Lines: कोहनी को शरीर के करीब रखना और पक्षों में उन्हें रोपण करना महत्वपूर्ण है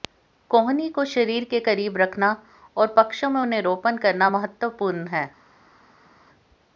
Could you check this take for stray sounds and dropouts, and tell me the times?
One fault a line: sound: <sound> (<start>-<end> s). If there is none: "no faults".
no faults